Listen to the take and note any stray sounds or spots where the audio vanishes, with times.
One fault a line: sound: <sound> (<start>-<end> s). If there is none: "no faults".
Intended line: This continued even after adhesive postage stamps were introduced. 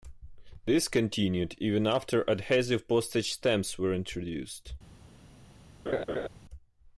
sound: laugh (5.9-6.3 s)